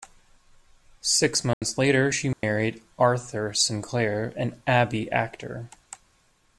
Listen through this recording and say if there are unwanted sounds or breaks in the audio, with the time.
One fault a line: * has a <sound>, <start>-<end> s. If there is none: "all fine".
* has a dropout, 1.5-1.6 s
* has a dropout, 2.3-2.4 s